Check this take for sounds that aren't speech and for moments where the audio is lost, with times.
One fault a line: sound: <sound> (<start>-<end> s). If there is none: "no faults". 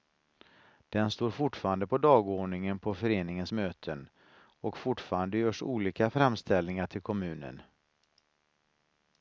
no faults